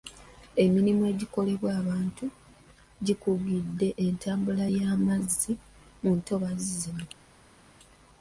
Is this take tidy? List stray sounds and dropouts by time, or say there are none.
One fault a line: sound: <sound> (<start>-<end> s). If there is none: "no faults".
no faults